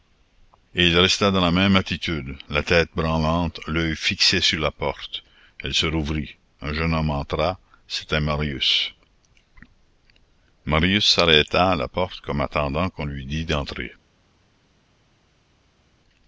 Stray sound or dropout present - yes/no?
no